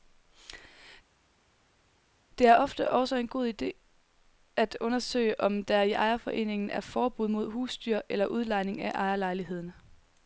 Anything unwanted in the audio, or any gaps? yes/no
no